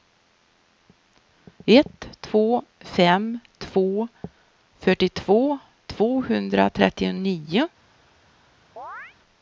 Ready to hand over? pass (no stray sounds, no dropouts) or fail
fail